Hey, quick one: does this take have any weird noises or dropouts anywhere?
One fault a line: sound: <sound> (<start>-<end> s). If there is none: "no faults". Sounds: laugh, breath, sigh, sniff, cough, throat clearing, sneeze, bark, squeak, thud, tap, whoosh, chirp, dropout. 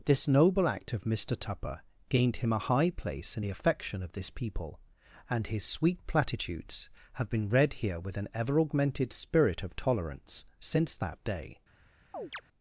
sound: chirp (12.1-12.4 s)